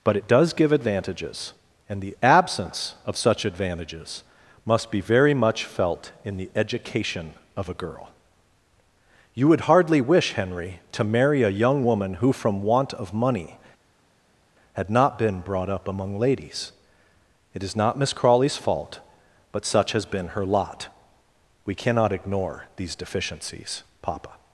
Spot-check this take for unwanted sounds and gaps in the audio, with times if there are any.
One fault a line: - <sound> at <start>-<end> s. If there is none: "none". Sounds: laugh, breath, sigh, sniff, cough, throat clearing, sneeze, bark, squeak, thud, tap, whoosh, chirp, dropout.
none